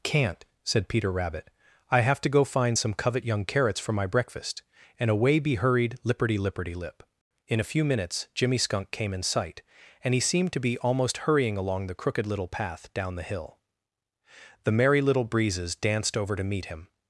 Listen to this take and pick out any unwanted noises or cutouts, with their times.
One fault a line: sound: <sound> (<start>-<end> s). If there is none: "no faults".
no faults